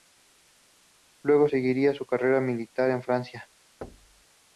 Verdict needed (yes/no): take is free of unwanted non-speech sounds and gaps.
no